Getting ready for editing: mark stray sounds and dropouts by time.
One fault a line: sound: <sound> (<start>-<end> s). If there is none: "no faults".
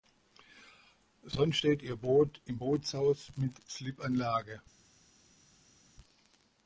no faults